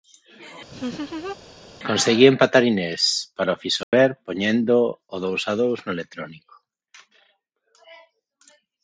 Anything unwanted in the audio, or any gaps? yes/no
yes